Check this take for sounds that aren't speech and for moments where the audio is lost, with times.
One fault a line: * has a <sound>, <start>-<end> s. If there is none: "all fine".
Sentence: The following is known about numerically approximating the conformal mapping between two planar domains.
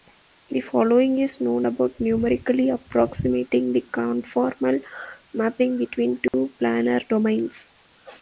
* has a dropout, 6.3-6.3 s